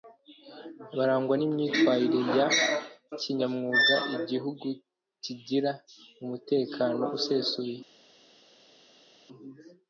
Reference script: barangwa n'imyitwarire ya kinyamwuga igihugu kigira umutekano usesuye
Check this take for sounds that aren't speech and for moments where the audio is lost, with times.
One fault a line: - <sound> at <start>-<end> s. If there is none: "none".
none